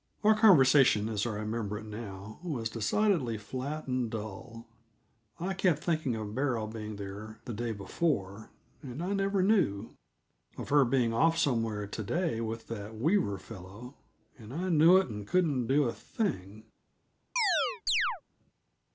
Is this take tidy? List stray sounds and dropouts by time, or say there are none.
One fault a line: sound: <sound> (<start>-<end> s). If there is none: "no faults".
sound: chirp (17.4-18.2 s)